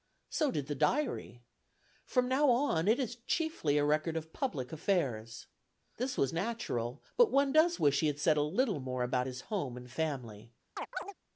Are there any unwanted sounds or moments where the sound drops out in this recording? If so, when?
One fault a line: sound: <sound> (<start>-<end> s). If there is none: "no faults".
sound: chirp (10.8-11.1 s)